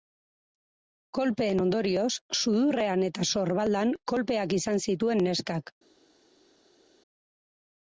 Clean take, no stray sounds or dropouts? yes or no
yes